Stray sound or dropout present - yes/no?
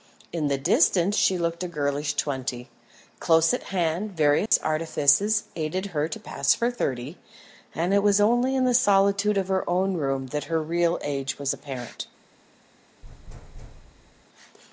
yes